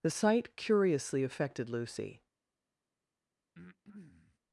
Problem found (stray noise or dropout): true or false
true